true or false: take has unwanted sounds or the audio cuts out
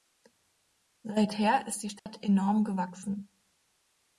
true